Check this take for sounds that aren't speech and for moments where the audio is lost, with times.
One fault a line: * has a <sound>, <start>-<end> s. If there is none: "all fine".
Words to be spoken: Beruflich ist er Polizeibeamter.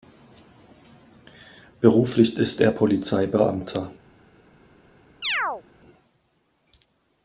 * has a chirp, 5.2-5.6 s